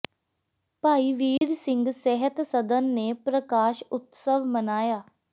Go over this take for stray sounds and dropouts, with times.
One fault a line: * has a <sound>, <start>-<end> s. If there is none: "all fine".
* has a dropout, 1.4-1.4 s